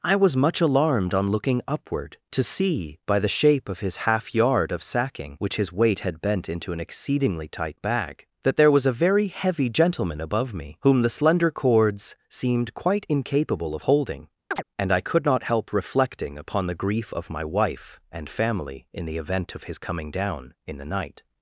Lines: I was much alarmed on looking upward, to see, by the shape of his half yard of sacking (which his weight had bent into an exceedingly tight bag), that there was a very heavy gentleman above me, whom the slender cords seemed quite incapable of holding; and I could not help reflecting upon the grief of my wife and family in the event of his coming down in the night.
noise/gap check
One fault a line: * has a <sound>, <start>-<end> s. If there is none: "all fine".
* has a chirp, 14.5-14.6 s